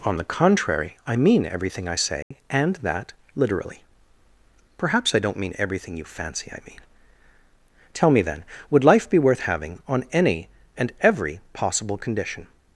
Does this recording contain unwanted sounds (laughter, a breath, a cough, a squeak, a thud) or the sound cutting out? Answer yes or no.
yes